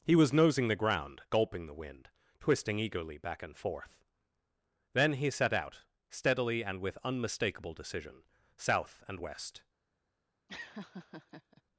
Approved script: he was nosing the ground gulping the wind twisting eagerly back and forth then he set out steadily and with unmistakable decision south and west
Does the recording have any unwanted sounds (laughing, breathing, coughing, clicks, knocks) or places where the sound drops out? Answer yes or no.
yes